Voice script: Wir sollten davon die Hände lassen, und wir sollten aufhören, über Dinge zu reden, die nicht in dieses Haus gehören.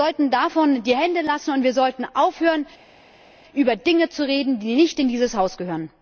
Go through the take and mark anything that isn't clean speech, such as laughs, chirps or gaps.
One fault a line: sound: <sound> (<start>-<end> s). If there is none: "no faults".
no faults